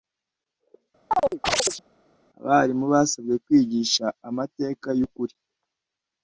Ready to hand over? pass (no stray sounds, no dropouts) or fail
fail